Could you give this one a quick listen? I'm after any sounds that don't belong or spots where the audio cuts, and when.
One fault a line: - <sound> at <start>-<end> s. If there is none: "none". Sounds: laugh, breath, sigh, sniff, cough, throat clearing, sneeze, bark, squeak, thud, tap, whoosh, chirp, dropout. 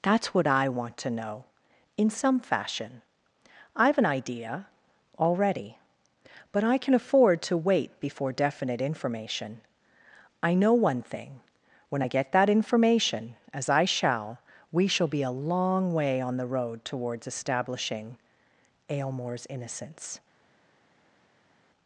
none